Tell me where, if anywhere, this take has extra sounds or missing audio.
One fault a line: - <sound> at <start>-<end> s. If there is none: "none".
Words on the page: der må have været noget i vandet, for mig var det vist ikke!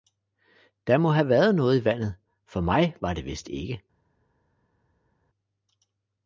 none